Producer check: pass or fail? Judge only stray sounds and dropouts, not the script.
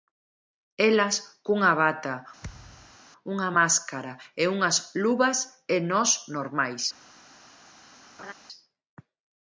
fail